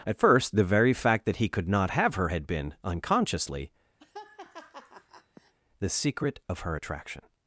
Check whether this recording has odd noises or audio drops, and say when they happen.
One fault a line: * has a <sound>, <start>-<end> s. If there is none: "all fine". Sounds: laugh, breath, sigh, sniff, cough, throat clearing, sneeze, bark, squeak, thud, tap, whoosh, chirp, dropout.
* has a laugh, 4.0-5.5 s